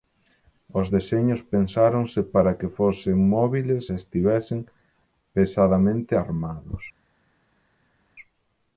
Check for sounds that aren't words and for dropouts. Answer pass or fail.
pass